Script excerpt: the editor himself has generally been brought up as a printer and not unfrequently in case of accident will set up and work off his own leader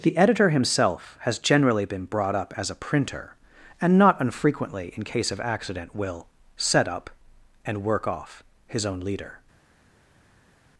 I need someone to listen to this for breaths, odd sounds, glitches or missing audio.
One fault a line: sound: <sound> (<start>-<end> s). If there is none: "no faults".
no faults